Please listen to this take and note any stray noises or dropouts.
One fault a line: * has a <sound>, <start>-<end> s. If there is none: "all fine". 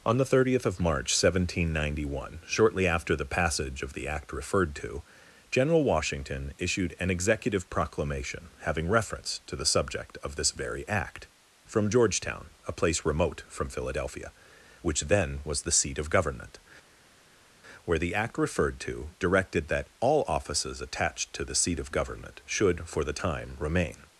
all fine